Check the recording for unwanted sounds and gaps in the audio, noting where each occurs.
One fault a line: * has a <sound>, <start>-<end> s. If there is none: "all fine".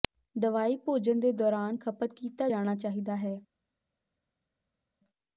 all fine